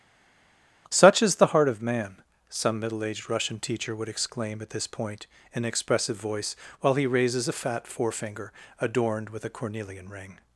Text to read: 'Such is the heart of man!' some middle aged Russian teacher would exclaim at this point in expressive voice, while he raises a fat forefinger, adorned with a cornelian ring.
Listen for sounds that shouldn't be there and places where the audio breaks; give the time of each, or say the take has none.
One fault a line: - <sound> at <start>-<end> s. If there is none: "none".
none